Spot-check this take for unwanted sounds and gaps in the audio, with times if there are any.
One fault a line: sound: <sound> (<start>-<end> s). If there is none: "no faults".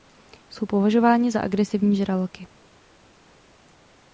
no faults